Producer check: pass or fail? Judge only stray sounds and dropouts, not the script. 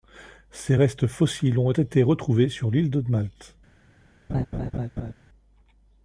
fail